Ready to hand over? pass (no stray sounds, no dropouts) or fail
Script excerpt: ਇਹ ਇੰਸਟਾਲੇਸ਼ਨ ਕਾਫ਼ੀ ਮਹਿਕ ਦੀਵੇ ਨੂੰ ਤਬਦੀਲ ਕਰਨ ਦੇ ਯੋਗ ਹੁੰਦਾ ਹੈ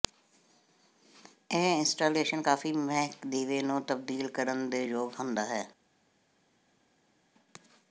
pass